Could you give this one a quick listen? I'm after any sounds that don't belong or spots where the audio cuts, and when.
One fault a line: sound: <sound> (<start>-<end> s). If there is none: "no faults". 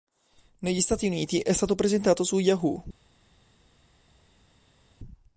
no faults